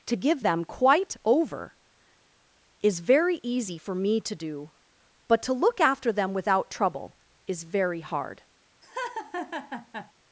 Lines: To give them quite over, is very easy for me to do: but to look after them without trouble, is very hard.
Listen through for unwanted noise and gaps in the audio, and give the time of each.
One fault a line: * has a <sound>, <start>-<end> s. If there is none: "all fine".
* has a laugh, 8.8-10.1 s